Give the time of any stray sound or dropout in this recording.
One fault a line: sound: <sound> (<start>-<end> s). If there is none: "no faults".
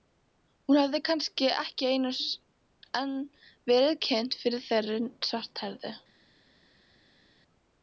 no faults